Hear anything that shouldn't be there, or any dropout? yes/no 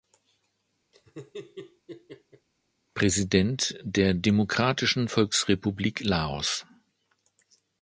yes